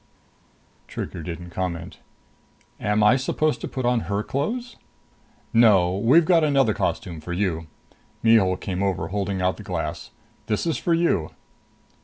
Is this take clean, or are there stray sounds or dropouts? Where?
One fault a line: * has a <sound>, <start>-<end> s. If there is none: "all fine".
all fine